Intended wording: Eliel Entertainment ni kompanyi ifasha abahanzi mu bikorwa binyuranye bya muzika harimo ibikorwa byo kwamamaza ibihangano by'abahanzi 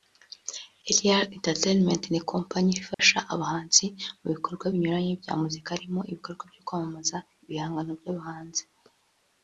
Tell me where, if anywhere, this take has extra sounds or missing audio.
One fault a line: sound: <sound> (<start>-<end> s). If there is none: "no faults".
sound: dropout (2.9-3.0 s)